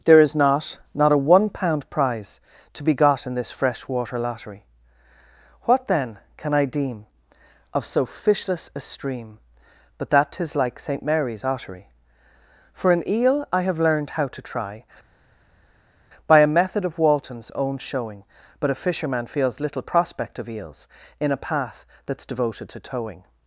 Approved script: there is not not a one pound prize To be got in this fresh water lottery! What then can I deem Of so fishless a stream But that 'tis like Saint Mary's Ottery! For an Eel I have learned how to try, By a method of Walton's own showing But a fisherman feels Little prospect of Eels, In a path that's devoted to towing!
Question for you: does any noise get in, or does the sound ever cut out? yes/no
no